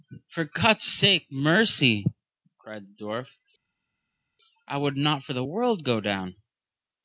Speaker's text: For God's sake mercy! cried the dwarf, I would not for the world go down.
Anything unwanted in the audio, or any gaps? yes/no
no